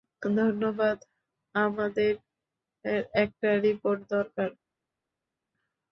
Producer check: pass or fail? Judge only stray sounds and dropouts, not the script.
pass